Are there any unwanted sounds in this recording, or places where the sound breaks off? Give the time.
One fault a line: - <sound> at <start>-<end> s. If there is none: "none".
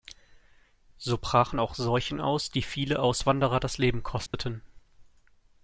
- dropout at 4.3-4.3 s